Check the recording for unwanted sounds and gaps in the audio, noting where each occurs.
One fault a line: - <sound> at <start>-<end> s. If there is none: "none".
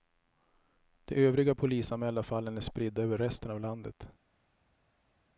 none